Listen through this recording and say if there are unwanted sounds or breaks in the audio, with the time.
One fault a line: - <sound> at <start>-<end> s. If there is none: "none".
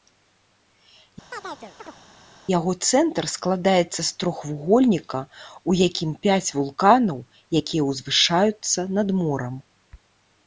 - chirp at 1.3-2.0 s